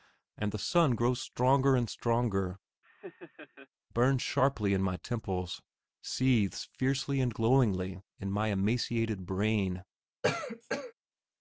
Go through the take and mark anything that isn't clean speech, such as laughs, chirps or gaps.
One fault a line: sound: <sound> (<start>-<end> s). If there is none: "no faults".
sound: laugh (2.8-3.7 s)
sound: cough (10.2-10.9 s)